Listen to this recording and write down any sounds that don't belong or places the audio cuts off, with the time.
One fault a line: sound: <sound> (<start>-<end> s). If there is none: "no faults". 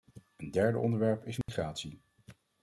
sound: dropout (1.4-1.5 s)